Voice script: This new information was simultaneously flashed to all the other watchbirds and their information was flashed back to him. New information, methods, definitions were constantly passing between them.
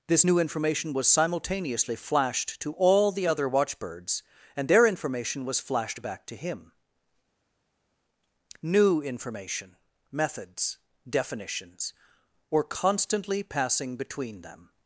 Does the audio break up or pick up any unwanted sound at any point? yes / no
no